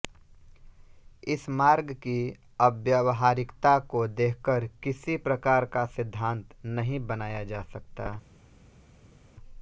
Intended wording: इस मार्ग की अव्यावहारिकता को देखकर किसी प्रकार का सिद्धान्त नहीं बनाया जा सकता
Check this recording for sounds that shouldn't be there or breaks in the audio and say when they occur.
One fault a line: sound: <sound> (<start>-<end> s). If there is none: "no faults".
no faults